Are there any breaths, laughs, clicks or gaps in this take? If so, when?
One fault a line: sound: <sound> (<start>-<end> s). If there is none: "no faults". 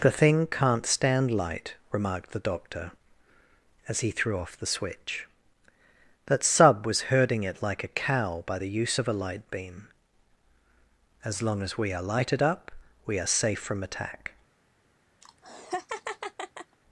sound: laugh (15.2-16.8 s)